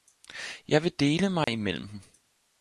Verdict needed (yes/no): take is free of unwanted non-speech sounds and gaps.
no